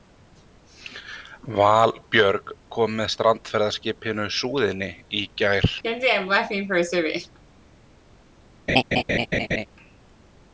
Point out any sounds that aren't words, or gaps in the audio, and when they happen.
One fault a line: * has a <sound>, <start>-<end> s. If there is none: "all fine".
* has a laugh, 5.8-7.4 s
* has a laugh, 8.7-9.7 s